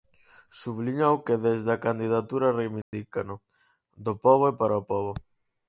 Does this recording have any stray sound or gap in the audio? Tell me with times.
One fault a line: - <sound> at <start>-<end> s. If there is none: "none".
- dropout at 2.8-2.9 s